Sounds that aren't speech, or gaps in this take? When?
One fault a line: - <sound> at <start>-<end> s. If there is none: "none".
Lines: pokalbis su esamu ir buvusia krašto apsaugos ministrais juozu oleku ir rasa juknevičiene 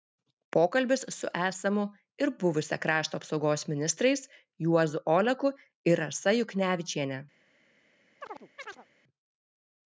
- chirp at 8.2-8.9 s